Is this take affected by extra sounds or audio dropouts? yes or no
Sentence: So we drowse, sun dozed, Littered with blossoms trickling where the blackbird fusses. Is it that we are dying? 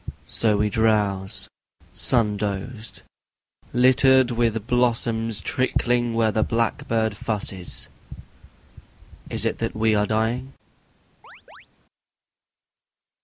yes